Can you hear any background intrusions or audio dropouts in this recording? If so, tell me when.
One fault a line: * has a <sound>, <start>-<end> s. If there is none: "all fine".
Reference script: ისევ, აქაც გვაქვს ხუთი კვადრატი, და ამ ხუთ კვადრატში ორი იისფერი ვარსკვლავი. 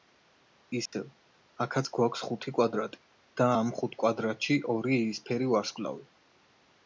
* has a dropout, 0.9-0.9 s